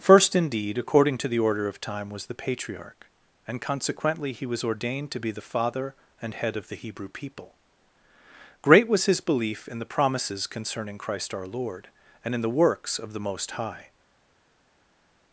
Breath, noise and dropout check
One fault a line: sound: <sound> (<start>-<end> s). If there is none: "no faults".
no faults